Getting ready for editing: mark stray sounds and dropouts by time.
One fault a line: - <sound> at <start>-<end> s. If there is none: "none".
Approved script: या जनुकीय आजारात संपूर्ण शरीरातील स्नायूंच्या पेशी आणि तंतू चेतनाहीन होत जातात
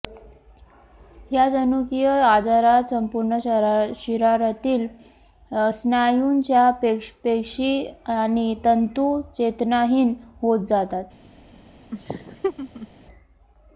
- laugh at 11.9-12.9 s